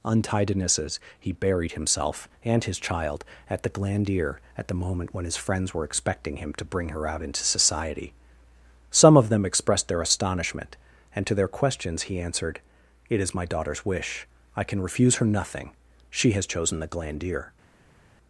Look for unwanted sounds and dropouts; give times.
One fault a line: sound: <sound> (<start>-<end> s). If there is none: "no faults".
no faults